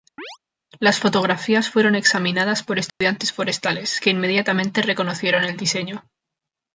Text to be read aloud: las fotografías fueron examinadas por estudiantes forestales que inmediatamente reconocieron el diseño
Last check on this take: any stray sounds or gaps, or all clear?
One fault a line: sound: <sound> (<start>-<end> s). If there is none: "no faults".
sound: chirp (0.2-0.4 s)
sound: dropout (2.9-3.0 s)